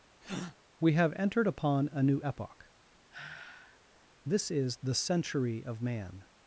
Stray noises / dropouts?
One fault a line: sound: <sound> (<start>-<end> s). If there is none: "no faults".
sound: breath (0.2-0.6 s)
sound: sigh (3.1-3.8 s)